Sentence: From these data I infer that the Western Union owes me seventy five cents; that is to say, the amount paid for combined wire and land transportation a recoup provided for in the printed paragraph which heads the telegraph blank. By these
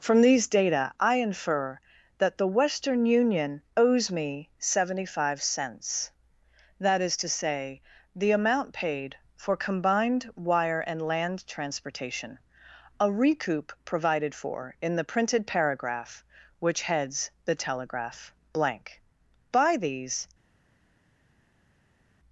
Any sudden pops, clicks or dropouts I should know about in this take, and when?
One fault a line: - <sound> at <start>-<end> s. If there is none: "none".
none